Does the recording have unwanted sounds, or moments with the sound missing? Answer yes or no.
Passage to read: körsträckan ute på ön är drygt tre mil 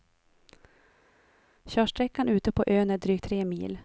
no